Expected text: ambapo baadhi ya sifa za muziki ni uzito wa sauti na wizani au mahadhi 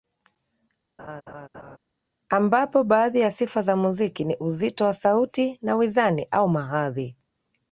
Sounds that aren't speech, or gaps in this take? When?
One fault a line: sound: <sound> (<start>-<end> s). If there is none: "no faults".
sound: laugh (1.0-1.8 s)